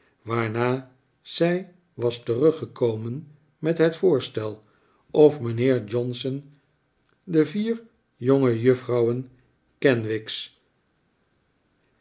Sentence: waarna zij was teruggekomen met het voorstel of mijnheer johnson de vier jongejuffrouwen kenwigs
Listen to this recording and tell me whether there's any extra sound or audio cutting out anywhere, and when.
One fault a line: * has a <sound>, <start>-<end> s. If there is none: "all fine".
all fine